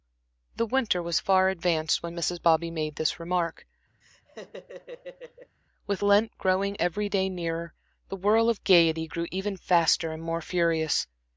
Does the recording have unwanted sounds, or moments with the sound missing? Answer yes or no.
yes